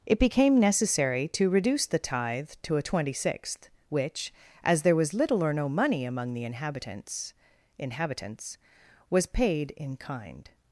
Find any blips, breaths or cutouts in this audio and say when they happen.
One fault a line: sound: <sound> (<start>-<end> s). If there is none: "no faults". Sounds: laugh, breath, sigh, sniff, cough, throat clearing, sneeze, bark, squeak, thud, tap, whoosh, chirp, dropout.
no faults